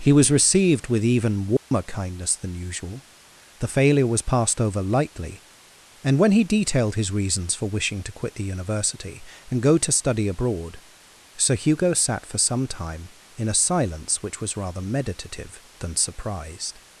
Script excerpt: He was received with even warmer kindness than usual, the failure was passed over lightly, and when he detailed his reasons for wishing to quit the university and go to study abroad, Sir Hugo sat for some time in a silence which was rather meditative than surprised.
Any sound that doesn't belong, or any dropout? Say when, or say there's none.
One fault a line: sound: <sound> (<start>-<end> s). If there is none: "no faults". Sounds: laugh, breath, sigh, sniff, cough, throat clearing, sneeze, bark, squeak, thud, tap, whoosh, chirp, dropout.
sound: dropout (1.6-1.7 s)